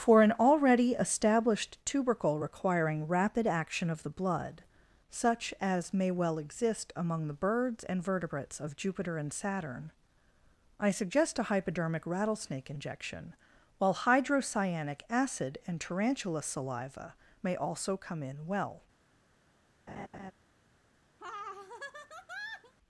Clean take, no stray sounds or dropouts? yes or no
no